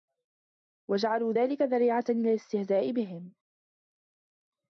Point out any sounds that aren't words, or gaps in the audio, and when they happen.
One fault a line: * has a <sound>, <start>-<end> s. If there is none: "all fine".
all fine